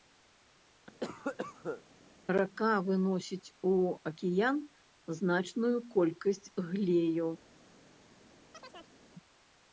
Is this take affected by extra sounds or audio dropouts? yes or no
yes